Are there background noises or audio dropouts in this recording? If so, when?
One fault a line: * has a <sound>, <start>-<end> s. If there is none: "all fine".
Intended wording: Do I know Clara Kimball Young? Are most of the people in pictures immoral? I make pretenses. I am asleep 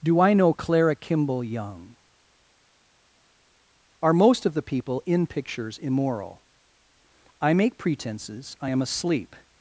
all fine